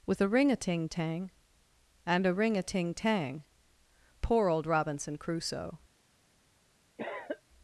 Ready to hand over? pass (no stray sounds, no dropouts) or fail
fail